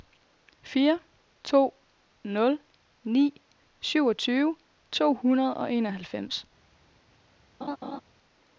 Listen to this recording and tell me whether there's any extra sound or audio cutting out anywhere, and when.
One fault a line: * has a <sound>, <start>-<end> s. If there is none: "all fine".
* has a laugh, 7.6-8.0 s